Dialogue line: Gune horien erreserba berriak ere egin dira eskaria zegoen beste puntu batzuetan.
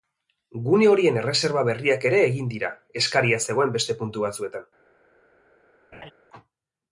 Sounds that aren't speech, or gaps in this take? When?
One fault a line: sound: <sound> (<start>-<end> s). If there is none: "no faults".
sound: laugh (5.9-6.1 s)